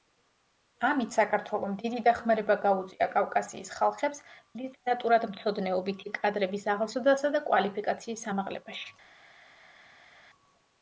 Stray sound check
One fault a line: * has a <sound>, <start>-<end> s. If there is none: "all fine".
all fine